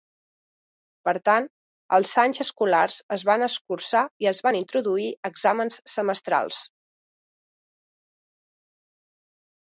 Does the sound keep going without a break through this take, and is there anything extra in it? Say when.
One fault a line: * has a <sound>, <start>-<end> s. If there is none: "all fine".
all fine